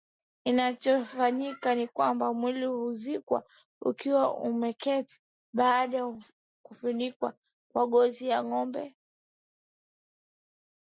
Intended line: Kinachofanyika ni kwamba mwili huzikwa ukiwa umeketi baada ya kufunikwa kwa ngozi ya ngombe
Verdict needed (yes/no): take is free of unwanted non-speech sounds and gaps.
yes